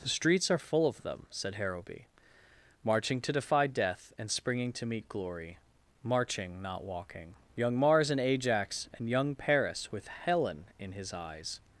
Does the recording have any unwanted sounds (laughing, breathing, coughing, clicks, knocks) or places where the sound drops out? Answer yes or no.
no